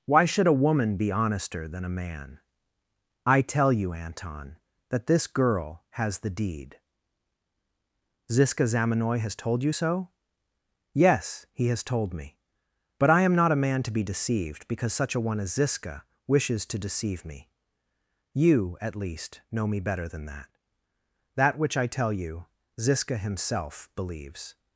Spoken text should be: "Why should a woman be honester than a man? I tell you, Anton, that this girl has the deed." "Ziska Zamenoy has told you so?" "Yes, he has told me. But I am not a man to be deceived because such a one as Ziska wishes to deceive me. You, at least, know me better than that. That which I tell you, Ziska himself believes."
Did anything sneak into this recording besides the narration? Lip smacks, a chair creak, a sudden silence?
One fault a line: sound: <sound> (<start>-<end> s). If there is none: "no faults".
no faults